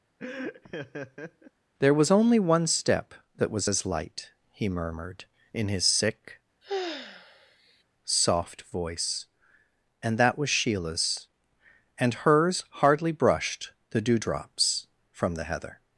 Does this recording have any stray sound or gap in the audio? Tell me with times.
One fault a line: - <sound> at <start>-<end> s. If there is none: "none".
- laugh at 0.2-1.5 s
- sigh at 6.6-7.8 s